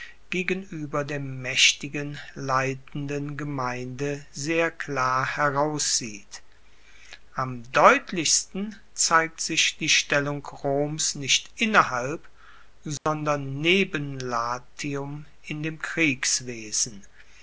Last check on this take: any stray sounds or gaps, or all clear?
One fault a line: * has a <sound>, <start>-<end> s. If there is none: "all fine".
* has a dropout, 13.0-13.1 s